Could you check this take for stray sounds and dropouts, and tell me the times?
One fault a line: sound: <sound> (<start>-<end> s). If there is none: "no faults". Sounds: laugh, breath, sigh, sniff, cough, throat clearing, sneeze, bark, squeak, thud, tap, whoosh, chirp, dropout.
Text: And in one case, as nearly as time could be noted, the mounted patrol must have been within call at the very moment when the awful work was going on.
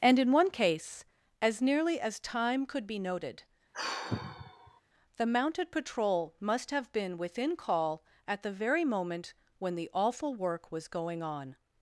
sound: sigh (3.7-4.8 s)